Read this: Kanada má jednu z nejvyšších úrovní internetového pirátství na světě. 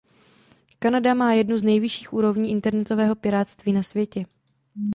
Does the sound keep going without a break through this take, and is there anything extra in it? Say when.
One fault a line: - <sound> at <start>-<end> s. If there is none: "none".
none